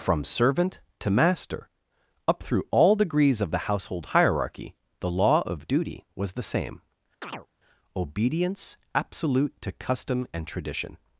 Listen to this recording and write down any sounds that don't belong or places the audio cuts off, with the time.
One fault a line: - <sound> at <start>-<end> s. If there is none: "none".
- chirp at 7.2-7.5 s